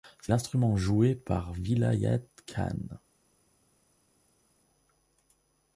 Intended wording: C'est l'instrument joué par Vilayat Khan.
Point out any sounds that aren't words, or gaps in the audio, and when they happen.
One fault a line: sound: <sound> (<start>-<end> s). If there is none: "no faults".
no faults